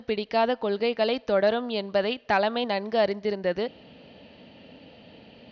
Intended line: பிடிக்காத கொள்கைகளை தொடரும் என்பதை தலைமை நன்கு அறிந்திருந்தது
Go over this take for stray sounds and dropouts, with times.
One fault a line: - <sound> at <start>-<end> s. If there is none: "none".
none